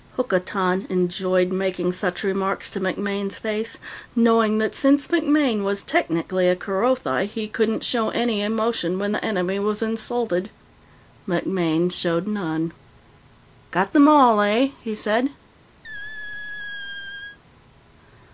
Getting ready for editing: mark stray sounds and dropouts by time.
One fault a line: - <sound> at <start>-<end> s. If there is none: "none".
- squeak at 15.8-17.4 s